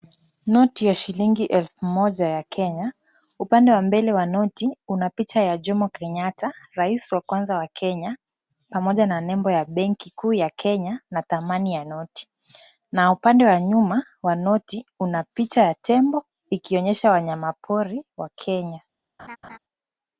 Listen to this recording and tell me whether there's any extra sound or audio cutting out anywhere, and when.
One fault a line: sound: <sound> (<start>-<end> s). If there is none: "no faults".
sound: laugh (19.2-19.6 s)